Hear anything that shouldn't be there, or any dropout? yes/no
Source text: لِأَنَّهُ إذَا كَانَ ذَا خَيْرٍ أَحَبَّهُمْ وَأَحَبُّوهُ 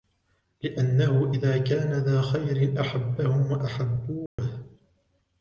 yes